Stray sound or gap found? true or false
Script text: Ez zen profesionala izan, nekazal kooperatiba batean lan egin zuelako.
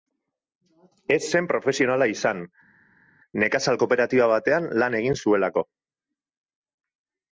false